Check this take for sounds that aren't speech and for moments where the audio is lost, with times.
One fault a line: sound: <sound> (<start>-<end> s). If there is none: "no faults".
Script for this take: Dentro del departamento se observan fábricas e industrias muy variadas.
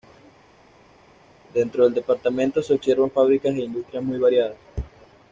no faults